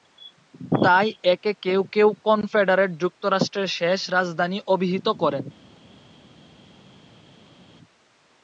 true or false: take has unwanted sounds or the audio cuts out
false